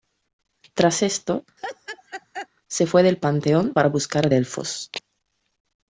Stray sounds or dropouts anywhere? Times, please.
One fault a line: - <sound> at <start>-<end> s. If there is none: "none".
- laugh at 1.6-2.5 s